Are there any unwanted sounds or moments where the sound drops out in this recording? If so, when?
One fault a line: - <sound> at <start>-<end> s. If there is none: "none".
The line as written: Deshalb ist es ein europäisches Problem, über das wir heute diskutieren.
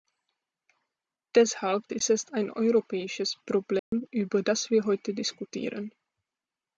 - dropout at 3.8-3.9 s